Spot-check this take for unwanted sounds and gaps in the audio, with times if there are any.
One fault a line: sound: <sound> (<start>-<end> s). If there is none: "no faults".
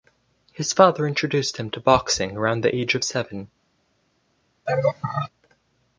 sound: laugh (4.7-5.3 s)